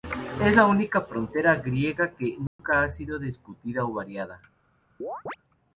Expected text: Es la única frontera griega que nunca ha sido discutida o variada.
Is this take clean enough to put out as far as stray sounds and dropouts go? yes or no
no